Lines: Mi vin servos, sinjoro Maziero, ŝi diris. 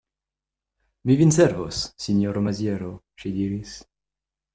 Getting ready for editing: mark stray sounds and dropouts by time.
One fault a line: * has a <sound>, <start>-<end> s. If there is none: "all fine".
all fine